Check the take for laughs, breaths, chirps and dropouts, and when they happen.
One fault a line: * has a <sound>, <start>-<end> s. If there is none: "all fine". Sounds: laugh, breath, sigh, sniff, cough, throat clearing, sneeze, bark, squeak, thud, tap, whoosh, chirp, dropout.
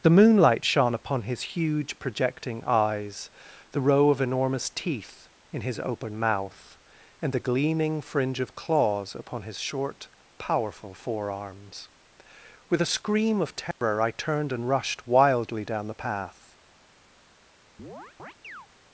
* has a dropout, 13.7-13.8 s
* has a chirp, 17.8-18.7 s